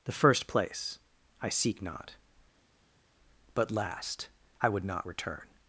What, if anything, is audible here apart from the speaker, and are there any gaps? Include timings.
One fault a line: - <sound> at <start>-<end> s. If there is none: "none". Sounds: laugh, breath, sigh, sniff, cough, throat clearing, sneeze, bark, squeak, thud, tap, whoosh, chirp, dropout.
none